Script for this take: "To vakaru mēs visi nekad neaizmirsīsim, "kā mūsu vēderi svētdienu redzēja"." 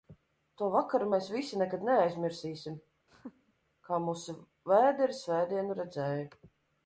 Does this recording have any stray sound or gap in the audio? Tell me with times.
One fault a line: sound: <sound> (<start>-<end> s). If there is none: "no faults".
sound: laugh (3.1-3.5 s)